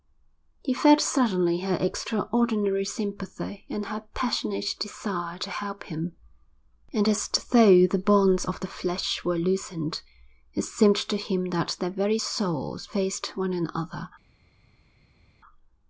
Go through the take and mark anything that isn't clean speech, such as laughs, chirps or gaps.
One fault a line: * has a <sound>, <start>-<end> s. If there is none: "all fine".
all fine